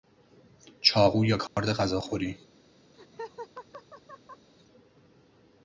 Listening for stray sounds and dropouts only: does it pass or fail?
fail